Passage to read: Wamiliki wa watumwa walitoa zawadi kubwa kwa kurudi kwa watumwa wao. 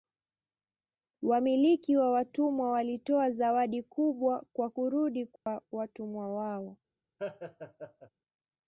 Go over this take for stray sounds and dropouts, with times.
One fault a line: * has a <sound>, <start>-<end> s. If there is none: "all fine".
* has a dropout, 5.4-5.5 s
* has a laugh, 7.2-8.1 s